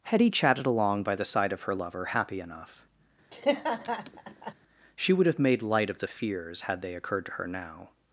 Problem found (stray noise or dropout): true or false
true